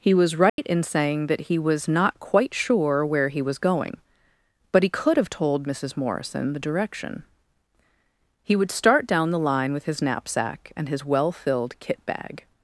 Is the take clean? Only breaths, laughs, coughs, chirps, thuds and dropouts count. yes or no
no